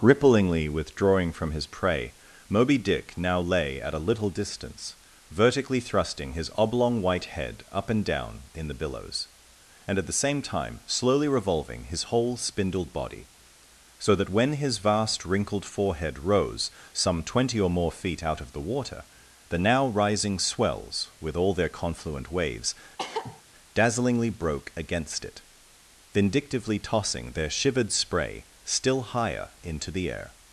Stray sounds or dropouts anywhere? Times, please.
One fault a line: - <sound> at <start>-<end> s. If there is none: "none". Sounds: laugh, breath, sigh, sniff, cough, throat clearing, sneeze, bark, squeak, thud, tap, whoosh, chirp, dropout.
- cough at 23.0-23.4 s